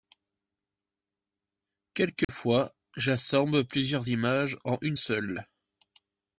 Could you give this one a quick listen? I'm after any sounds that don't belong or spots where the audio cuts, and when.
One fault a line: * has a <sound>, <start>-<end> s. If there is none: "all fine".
* has a dropout, 2.2-2.3 s